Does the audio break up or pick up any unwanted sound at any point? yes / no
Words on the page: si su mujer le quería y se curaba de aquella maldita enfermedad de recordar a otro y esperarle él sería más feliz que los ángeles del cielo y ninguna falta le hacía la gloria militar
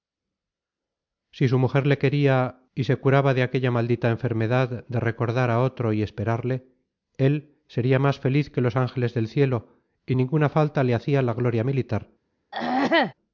yes